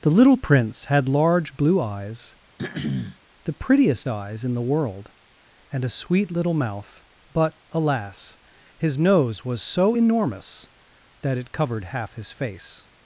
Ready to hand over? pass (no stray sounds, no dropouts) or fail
fail